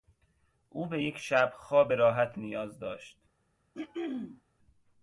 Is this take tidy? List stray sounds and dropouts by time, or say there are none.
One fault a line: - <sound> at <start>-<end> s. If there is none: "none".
- throat clearing at 3.7-4.4 s